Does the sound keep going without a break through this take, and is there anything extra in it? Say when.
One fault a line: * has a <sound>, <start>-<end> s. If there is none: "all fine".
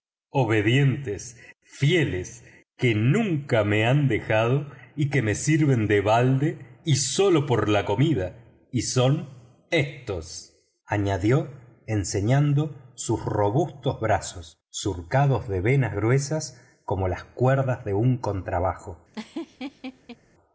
* has a laugh, 19.1-20.2 s